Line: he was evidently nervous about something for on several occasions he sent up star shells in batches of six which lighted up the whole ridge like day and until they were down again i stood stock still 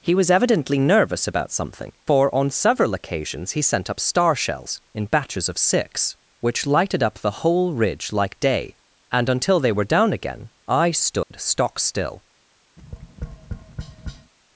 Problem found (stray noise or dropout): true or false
true